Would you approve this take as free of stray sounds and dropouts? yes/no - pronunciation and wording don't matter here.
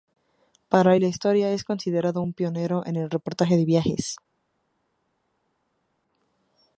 yes